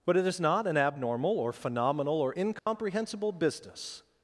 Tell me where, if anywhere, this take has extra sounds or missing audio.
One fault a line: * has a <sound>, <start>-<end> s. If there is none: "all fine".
* has a dropout, 2.6-2.7 s